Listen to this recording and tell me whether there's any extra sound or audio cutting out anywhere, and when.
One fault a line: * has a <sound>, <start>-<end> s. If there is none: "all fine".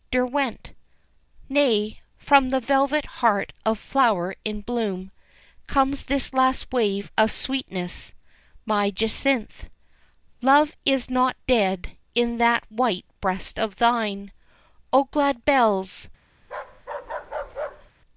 * has a bark, 16.4-17.9 s